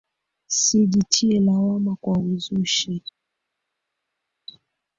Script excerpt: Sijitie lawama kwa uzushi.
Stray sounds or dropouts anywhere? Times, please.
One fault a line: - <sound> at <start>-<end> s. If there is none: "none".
none